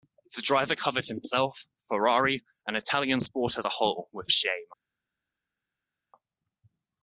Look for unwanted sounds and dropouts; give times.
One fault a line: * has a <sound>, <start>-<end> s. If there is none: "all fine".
all fine